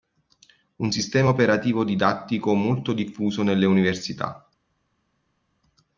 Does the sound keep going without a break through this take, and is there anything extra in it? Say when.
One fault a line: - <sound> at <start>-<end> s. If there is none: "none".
none